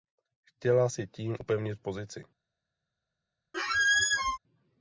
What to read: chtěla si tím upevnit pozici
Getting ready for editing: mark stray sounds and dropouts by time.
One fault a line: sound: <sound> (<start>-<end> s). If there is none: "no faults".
sound: squeak (3.5-4.4 s)